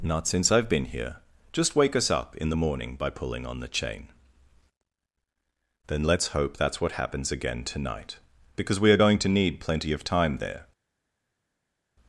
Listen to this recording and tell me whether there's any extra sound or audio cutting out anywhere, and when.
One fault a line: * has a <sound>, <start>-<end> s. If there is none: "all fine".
all fine